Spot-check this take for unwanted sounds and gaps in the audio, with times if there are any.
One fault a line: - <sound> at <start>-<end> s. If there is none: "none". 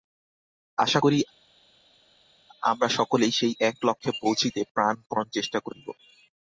none